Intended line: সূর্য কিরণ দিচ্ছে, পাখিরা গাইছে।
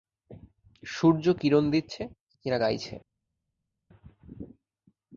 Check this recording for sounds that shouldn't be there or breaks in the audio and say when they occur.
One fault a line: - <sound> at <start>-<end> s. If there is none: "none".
none